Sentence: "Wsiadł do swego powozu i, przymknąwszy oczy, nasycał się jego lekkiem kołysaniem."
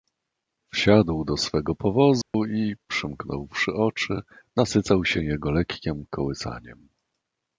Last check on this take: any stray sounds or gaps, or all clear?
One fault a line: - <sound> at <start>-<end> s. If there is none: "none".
- dropout at 2.2-2.3 s